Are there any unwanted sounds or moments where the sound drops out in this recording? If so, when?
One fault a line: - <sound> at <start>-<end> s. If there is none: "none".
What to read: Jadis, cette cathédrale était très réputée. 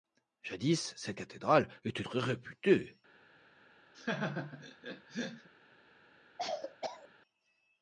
- laugh at 3.9-5.5 s
- cough at 6.4-7.1 s